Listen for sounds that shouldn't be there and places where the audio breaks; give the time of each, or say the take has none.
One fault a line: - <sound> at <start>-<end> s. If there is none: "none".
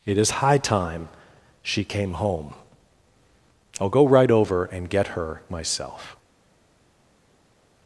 none